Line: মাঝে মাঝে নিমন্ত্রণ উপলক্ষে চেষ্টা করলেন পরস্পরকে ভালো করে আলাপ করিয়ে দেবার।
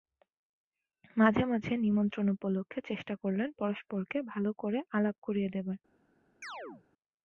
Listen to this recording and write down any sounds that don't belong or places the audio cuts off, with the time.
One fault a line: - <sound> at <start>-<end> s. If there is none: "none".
- chirp at 6.4-6.8 s